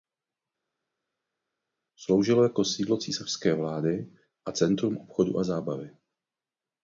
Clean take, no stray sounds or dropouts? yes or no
yes